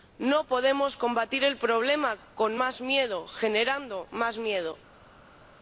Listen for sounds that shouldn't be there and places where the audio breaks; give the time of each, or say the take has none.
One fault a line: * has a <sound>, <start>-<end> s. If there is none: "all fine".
all fine